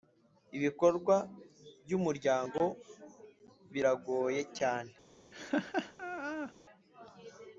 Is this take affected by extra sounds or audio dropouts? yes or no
yes